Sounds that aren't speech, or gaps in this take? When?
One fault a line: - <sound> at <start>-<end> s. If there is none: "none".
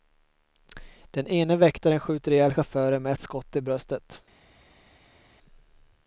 none